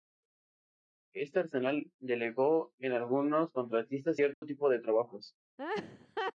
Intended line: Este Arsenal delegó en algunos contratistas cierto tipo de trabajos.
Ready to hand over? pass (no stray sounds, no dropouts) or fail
fail